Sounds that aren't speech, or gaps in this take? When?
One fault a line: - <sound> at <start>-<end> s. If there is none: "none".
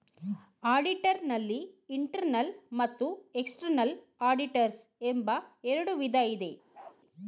- bark at 6.7-7.0 s